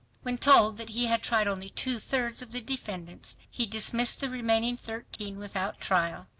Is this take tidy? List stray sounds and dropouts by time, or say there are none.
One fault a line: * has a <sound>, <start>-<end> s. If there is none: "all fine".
* has a dropout, 5.2-5.2 s